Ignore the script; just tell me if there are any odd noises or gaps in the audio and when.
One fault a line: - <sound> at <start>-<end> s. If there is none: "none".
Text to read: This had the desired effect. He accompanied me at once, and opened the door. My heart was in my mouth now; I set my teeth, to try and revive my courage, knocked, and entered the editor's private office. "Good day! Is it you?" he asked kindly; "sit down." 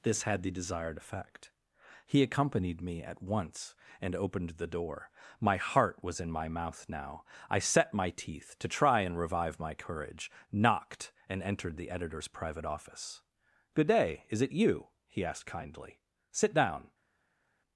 none